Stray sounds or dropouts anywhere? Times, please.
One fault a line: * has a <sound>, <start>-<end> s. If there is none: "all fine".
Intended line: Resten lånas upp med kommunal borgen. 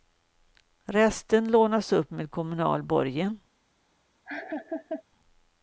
* has a laugh, 4.3-5.0 s